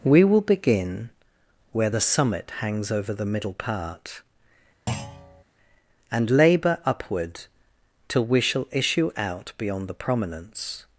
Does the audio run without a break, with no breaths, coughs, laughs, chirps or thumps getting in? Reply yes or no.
no